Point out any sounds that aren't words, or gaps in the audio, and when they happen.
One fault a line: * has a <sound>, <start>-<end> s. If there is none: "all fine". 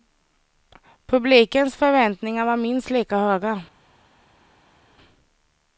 all fine